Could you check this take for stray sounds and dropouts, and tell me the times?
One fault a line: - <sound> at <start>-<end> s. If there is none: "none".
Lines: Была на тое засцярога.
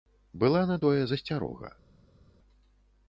none